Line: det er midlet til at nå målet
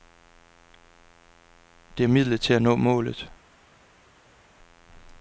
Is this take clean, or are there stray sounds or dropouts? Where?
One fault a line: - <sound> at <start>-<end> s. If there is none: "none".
none